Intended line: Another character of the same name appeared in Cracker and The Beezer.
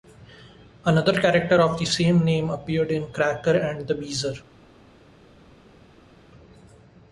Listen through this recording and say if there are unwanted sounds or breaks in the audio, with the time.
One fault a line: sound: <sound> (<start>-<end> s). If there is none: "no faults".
no faults